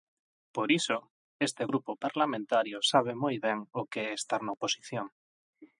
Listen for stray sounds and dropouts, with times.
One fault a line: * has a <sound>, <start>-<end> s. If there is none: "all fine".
all fine